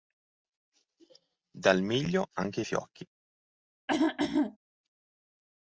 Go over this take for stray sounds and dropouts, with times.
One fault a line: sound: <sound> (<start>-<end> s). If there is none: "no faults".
sound: throat clearing (3.9-4.6 s)